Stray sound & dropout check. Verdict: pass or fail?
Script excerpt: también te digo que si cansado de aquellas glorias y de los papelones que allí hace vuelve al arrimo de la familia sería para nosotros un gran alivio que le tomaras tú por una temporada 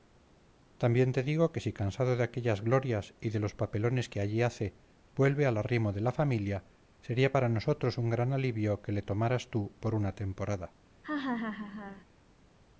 fail